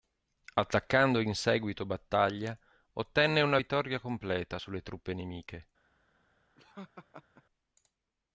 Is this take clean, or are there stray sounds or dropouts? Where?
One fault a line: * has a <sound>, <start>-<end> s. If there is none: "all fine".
* has a laugh, 6.6-7.4 s